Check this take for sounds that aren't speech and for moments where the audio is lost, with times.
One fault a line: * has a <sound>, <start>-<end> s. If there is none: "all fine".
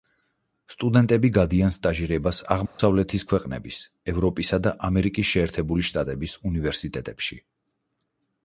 * has a dropout, 2.7-2.8 s